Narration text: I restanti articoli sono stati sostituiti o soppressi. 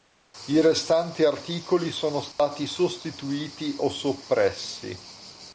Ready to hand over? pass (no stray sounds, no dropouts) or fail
fail